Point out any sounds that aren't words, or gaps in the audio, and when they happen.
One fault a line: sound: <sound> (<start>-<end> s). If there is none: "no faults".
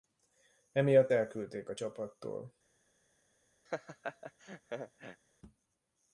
sound: laugh (3.7-5.2 s)